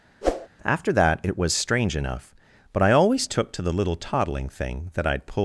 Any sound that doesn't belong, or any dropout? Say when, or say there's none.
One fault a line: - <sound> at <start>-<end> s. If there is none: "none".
- whoosh at 0.2-0.5 s